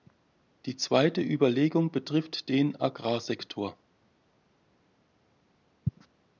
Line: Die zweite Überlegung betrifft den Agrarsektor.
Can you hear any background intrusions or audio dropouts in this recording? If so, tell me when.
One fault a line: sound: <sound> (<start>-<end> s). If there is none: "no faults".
no faults